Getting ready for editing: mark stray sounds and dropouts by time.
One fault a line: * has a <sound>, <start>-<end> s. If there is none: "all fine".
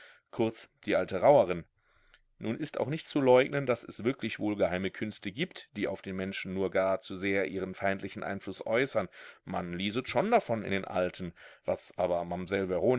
all fine